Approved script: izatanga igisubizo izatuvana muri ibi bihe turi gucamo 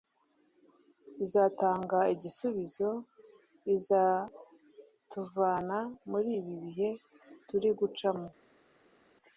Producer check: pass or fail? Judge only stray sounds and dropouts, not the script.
pass